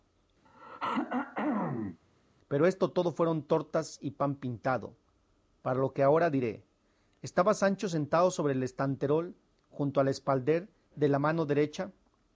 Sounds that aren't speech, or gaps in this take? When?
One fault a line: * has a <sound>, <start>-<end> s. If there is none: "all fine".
* has a throat clearing, 0.5-2.0 s